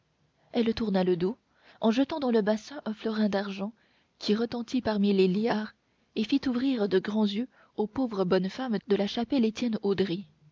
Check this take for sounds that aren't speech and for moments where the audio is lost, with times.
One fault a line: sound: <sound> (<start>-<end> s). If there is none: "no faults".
no faults